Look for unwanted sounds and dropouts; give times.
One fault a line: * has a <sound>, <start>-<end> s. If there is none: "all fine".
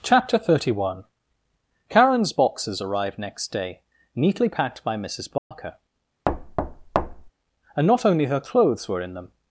* has a dropout, 5.4-5.5 s
* has a thud, 6.3-7.3 s